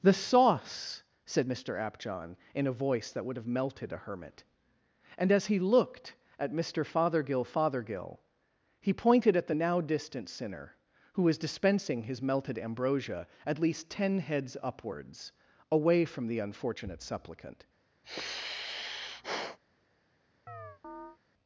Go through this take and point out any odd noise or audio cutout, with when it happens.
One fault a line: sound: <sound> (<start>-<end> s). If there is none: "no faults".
sound: sigh (18.0-19.6 s)
sound: chirp (20.5-21.2 s)